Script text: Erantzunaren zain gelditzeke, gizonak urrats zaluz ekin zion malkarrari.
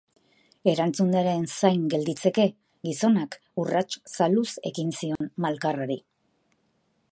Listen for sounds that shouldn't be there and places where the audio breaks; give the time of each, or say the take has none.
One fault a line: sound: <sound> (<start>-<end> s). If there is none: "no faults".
sound: dropout (5.2-5.2 s)